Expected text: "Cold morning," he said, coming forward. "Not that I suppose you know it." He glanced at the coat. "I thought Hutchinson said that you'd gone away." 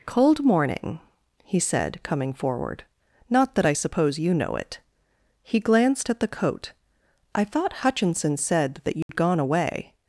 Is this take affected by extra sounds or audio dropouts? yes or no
yes